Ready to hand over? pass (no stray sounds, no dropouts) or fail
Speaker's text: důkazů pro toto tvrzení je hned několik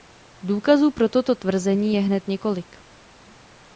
pass